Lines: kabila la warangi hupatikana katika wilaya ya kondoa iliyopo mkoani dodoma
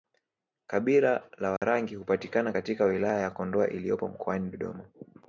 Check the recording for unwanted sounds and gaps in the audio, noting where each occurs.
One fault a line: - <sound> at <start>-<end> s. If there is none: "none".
- dropout at 1.6-1.6 s